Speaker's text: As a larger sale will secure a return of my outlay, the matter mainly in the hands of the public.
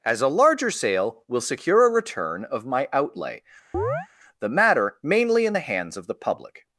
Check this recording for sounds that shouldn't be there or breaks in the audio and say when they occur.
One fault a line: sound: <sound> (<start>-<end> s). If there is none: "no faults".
sound: chirp (3.7-4.1 s)